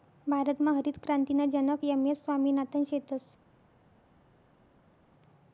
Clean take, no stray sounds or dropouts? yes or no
yes